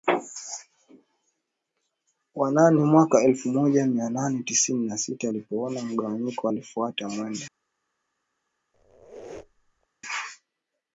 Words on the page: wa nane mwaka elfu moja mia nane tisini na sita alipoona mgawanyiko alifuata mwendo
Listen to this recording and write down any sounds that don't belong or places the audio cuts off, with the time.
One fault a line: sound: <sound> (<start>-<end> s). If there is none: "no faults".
sound: squeak (8.7-9.9 s)